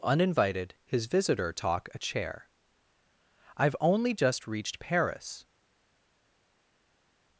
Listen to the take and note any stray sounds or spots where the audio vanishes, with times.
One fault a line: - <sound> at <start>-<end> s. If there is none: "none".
none